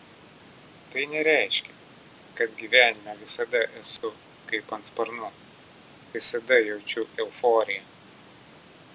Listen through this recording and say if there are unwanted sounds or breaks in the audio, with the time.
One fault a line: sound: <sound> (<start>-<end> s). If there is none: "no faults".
sound: dropout (4.0-4.0 s)